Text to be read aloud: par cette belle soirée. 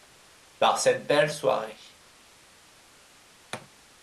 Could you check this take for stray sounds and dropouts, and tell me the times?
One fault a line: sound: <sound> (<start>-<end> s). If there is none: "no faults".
no faults